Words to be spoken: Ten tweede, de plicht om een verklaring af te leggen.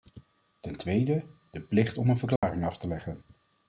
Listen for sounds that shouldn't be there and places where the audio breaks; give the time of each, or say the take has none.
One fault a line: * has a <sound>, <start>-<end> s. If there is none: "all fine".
* has a dropout, 2.4-2.4 s